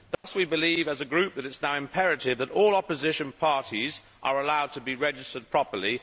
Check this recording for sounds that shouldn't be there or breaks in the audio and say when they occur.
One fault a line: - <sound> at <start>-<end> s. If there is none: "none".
- dropout at 0.1-0.2 s